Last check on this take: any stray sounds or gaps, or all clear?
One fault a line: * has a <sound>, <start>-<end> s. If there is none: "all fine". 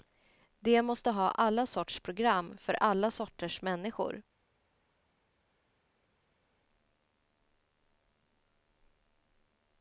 all fine